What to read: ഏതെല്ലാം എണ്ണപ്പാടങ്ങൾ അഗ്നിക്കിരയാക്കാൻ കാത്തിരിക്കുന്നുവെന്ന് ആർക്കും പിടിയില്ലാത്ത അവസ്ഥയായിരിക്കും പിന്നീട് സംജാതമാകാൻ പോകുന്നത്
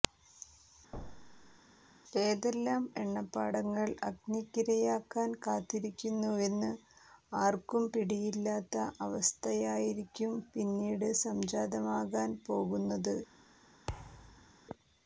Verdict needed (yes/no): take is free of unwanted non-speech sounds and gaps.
no